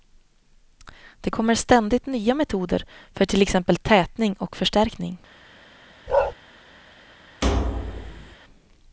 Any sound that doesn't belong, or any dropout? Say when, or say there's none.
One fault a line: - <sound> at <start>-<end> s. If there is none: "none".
- bark at 6.1-6.3 s
- thud at 7.4-8.4 s